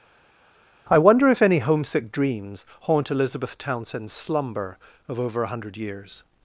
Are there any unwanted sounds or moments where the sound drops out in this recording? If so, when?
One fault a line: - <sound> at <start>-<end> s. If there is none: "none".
none